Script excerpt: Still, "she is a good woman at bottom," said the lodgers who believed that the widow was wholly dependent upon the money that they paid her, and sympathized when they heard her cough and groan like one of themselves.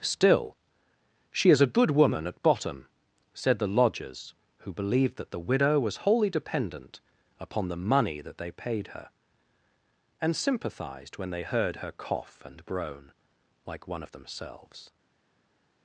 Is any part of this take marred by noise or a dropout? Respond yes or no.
no